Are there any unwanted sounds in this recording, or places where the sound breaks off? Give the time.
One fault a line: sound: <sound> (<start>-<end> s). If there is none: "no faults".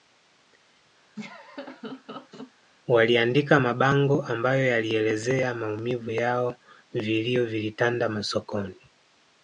sound: laugh (1.2-2.5 s)